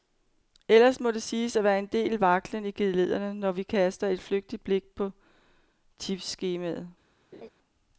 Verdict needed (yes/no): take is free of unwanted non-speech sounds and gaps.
no